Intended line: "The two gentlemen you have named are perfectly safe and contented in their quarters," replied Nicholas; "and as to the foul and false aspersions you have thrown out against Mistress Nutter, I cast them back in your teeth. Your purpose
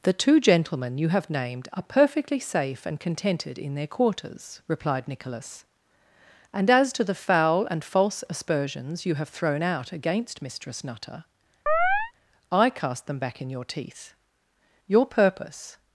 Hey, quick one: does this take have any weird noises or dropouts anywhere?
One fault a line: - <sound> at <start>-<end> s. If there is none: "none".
- chirp at 11.7-12.1 s